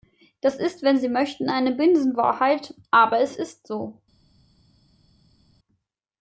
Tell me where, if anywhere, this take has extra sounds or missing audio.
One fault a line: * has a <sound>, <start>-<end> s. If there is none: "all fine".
all fine